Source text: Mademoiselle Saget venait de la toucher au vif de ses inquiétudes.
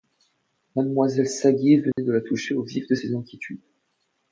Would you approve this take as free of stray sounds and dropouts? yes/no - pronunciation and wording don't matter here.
no